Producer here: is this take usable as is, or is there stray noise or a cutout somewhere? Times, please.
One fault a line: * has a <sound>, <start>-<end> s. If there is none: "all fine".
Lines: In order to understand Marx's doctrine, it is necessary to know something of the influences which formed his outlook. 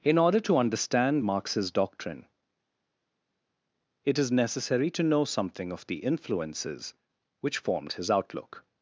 all fine